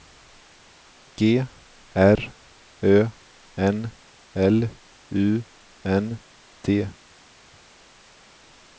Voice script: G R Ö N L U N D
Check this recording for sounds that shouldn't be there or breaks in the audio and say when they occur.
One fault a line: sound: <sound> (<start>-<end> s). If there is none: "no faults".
no faults